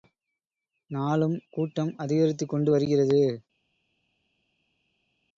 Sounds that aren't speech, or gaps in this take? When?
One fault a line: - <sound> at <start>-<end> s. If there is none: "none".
none